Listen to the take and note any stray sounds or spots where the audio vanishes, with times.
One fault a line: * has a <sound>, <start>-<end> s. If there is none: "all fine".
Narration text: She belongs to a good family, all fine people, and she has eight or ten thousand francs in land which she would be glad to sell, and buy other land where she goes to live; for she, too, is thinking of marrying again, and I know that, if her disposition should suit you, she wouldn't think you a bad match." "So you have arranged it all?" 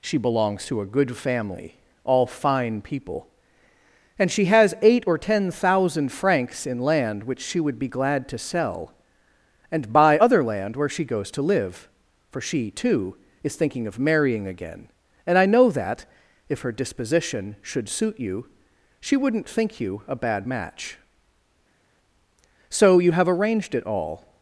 all fine